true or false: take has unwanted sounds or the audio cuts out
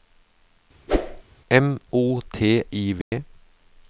true